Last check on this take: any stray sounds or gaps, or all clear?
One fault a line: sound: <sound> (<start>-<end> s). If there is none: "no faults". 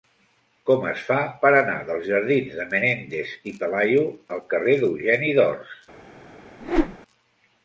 sound: whoosh (6.6-7.0 s)